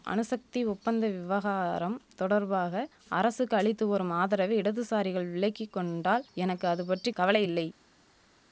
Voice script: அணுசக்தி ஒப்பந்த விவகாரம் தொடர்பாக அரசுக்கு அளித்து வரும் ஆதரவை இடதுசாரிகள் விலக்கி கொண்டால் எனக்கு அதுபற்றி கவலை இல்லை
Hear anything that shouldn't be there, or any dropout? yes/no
no